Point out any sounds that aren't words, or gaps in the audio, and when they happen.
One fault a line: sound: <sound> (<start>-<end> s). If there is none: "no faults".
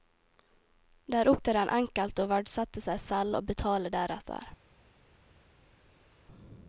no faults